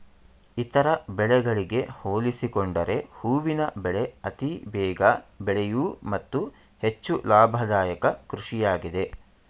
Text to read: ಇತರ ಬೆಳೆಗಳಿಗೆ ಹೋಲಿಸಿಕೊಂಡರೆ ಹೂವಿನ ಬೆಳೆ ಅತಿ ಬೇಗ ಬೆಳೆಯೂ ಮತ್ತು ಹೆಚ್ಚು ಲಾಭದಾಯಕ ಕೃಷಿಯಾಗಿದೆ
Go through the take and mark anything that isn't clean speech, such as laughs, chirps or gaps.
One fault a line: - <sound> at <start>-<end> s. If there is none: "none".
none